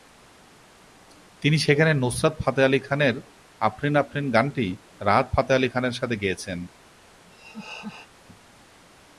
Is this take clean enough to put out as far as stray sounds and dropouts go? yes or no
no